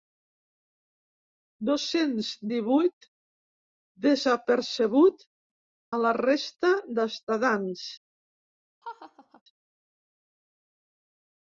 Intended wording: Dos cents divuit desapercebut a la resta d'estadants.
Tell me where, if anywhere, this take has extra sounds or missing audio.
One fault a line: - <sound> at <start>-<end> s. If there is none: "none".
- laugh at 8.8-9.4 s